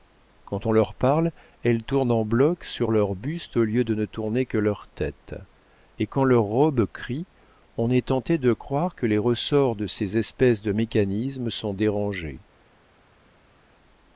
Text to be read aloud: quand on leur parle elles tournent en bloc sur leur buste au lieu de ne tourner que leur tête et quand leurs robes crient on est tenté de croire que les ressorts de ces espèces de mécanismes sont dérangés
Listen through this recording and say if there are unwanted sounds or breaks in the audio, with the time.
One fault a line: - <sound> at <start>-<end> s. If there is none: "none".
none